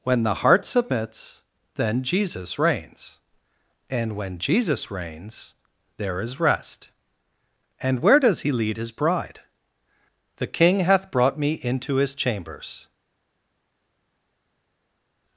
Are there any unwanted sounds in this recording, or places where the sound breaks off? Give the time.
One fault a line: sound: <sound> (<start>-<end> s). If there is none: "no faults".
no faults